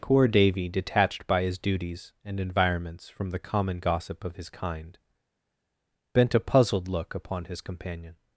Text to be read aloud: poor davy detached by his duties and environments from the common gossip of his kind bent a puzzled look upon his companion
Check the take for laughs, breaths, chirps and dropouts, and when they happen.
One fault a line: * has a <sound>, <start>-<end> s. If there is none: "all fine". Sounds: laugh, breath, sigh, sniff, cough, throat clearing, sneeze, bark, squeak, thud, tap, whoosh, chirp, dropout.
all fine